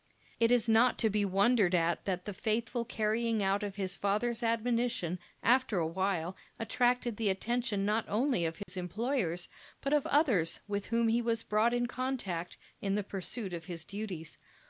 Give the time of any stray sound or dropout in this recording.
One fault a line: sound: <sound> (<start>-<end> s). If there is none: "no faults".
sound: dropout (8.6-8.7 s)